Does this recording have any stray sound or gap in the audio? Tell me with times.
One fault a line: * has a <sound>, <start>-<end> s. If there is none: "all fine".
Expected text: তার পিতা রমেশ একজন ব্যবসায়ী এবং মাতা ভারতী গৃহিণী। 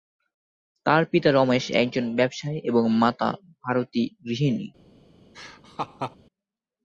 * has a laugh, 5.3-6.2 s